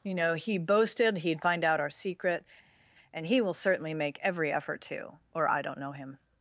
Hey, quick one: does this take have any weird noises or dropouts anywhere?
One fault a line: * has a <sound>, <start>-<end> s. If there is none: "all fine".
all fine